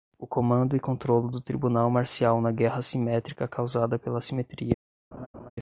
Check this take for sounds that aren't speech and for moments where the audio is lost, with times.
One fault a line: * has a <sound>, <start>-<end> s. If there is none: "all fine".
* has a laugh, 5.1-5.5 s